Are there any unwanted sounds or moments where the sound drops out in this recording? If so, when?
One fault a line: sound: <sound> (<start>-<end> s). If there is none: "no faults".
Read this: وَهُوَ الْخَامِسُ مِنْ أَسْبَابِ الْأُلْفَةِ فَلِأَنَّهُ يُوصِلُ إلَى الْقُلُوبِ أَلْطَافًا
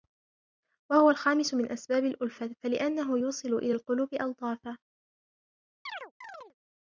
sound: chirp (5.9-6.5 s)